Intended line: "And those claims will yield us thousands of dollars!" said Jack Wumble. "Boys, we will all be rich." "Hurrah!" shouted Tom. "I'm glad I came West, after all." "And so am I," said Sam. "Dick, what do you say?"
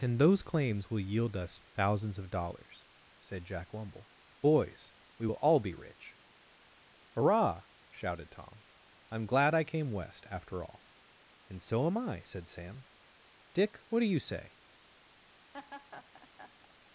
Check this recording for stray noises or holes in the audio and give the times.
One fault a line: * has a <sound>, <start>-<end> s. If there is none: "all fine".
* has a laugh, 15.5-16.9 s